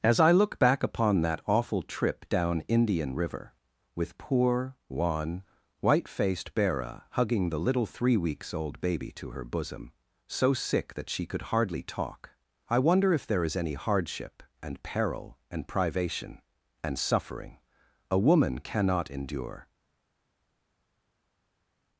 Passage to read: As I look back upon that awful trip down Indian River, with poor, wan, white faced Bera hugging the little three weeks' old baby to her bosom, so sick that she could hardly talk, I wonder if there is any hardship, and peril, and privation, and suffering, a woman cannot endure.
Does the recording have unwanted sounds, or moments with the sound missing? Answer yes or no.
no